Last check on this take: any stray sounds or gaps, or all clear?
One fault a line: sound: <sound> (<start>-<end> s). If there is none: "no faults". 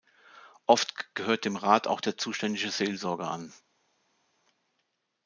no faults